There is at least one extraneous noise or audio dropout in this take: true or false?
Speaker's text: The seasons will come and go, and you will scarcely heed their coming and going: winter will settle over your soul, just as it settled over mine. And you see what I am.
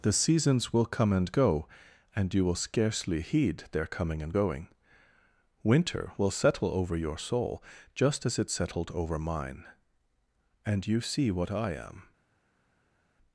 false